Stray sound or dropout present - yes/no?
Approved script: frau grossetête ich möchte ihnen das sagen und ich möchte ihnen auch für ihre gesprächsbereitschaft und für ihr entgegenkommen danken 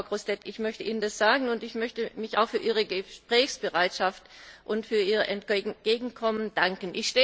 no